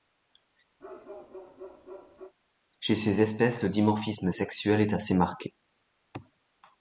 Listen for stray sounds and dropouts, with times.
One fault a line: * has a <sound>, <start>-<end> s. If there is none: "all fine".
* has a bark, 0.8-2.3 s